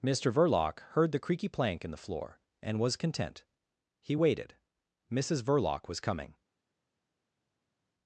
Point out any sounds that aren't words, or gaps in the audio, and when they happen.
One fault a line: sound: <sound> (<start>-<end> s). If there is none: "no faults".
no faults